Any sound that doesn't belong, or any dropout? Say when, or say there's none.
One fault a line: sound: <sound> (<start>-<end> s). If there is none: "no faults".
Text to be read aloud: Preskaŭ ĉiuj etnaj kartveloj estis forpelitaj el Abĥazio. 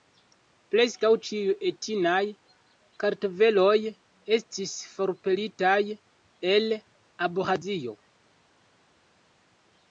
no faults